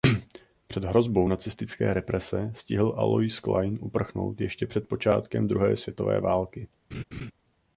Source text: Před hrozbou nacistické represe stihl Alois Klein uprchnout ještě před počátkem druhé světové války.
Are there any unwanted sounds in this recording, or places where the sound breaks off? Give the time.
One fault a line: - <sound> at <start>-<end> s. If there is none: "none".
- laugh at 6.9-7.3 s